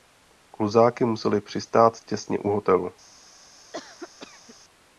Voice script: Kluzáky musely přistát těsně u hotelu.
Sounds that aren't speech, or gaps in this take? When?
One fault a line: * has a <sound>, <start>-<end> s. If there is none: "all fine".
* has a cough, 3.7-4.6 s